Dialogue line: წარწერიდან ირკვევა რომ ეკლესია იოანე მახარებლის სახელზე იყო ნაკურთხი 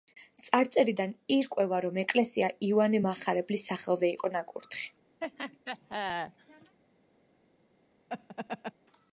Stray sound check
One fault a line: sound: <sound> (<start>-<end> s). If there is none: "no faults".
sound: laugh (5.2-6.8 s)
sound: laugh (8.1-8.7 s)